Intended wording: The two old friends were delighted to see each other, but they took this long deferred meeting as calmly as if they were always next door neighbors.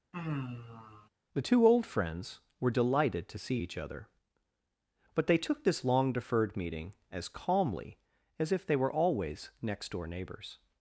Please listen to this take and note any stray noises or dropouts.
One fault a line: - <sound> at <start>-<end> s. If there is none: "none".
- sigh at 0.1-1.1 s